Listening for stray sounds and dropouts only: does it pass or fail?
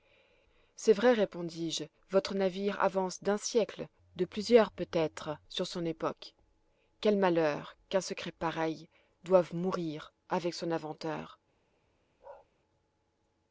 fail